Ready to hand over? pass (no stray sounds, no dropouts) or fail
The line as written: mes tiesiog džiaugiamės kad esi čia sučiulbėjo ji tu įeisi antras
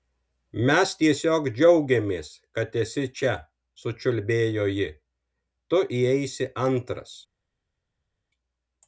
pass